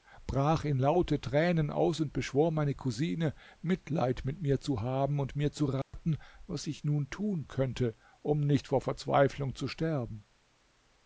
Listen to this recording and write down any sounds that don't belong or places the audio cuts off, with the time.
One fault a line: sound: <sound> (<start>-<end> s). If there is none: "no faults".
sound: dropout (5.8-5.9 s)